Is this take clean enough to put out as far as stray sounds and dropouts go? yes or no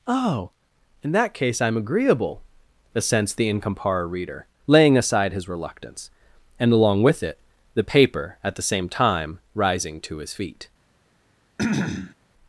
no